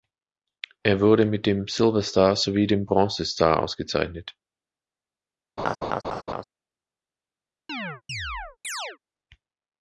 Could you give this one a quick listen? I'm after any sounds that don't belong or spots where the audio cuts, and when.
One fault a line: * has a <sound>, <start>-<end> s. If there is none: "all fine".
* has a laugh, 5.6-6.4 s
* has a chirp, 7.7-9.0 s